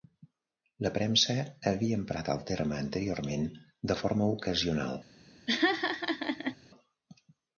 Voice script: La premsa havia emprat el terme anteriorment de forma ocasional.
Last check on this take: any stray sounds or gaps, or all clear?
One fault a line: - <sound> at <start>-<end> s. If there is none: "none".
- laugh at 5.5-6.6 s